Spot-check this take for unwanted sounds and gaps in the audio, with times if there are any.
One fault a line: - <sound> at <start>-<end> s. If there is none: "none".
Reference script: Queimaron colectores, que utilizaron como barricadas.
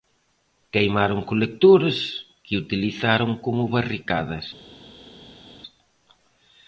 none